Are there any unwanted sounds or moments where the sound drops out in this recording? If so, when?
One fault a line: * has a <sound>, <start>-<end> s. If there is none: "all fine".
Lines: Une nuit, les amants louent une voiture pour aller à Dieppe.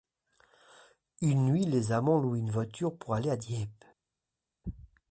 all fine